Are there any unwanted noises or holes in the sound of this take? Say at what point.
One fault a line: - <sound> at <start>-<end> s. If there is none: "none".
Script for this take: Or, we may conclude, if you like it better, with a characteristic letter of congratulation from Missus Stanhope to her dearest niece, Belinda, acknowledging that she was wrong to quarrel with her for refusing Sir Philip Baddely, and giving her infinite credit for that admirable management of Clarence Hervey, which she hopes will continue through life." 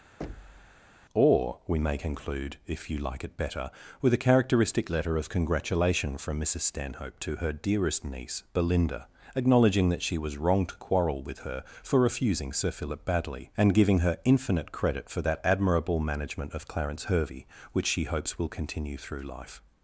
- thud at 0.2-0.9 s